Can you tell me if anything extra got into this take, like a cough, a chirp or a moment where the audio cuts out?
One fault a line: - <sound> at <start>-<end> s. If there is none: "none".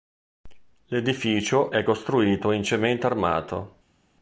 none